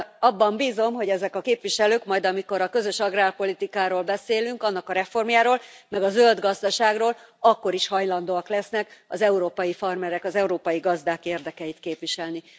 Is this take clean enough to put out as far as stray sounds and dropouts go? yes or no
yes